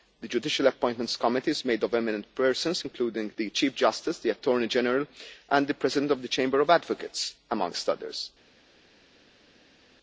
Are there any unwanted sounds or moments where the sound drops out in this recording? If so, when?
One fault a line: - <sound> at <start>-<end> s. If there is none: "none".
none